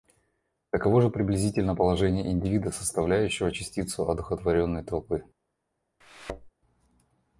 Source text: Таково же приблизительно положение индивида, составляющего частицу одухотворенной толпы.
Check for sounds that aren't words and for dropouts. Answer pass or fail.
fail